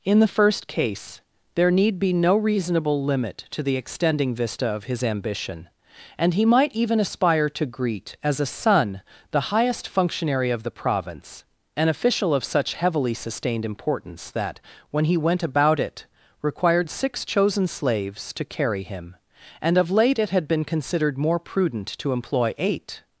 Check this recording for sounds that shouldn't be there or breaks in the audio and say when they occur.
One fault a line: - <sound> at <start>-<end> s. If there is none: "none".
none